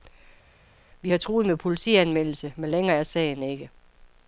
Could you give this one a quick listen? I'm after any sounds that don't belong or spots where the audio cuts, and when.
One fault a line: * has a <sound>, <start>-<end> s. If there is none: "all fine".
all fine